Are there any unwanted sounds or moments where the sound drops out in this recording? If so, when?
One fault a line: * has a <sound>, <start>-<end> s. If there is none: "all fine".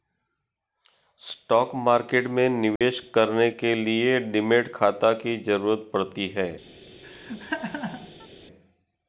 * has a dropout, 2.8-2.8 s
* has a laugh, 7.0-8.3 s